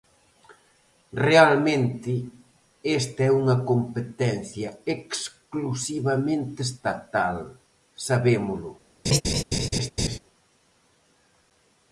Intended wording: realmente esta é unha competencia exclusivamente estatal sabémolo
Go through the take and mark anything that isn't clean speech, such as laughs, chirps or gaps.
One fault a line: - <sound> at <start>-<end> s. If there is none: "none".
- laugh at 9.0-10.2 s